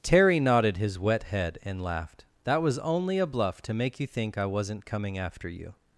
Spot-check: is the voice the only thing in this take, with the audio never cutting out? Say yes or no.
yes